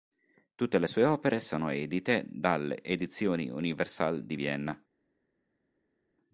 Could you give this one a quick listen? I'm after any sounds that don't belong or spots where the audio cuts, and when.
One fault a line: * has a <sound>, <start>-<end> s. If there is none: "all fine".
all fine